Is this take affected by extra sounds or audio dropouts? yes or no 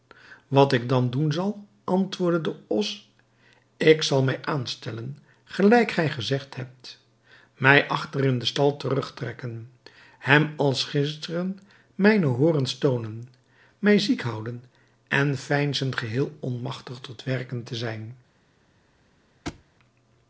yes